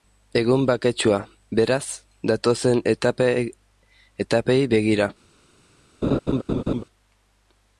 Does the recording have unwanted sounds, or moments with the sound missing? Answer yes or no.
yes